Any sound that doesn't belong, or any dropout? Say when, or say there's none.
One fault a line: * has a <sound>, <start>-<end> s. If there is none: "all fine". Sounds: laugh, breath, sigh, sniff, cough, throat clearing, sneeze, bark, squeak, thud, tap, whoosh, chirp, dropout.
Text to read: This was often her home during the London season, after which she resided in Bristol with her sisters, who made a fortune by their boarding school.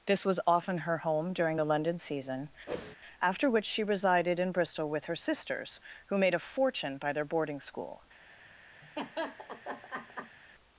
* has a whoosh, 2.7-3.0 s
* has a laugh, 8.8-10.4 s